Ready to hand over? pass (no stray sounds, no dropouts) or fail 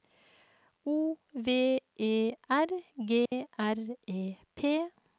fail